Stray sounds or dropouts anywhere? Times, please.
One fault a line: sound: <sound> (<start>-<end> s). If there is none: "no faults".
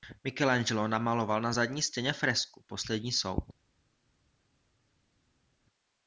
no faults